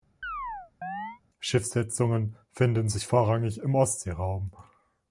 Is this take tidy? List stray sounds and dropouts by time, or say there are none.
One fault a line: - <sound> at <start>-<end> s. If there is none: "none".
- chirp at 0.2-1.2 s